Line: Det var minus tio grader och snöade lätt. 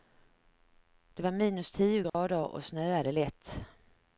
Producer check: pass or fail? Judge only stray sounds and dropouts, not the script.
fail